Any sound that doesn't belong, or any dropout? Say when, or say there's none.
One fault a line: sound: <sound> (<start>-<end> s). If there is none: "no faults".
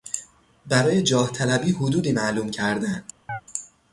sound: chirp (3.3-3.4 s)